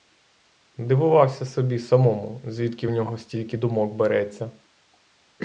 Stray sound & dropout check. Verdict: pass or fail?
pass